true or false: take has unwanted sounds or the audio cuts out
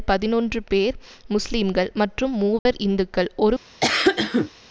true